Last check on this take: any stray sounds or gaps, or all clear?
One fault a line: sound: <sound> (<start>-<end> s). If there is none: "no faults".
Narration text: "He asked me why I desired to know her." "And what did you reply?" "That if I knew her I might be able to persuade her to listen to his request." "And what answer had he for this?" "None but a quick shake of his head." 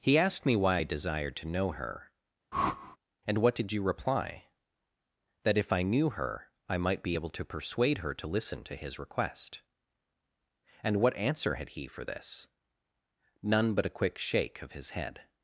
sound: whoosh (2.5-3.0 s)